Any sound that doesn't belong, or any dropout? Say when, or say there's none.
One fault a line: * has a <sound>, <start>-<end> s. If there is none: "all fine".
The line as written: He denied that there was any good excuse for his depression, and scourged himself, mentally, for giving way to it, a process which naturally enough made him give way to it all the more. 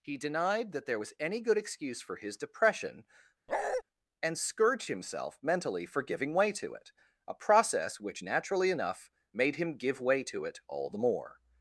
* has a bark, 3.5-3.8 s